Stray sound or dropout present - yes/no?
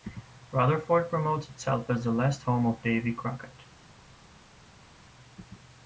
no